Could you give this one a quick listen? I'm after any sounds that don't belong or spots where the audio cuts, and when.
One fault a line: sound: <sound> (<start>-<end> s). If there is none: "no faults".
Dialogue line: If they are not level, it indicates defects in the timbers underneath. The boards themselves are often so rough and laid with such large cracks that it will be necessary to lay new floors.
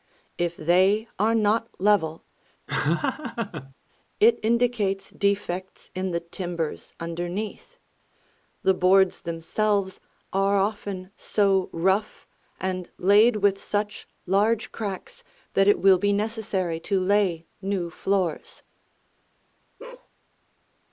sound: laugh (2.7-3.7 s)
sound: bark (19.8-20.1 s)